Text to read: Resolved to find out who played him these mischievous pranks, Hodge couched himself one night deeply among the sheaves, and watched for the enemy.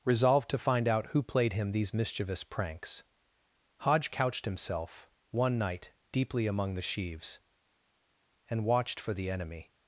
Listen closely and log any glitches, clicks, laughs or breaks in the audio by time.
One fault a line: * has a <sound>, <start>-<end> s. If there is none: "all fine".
all fine